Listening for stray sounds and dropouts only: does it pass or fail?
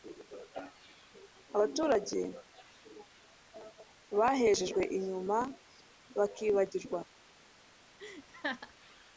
fail